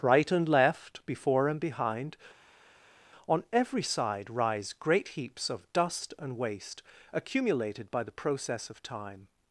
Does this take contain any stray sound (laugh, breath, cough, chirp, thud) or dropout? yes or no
no